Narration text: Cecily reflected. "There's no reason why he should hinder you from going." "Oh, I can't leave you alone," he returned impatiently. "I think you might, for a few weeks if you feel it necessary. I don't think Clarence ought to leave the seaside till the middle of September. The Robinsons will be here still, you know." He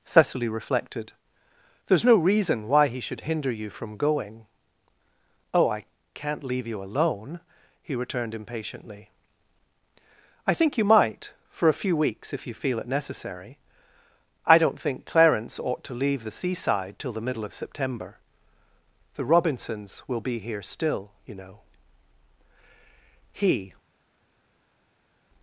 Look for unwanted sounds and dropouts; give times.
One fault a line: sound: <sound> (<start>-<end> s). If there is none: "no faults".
no faults